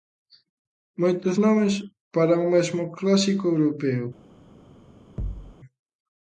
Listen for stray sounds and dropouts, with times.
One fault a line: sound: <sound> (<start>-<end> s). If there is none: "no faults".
sound: thud (5.2-5.5 s)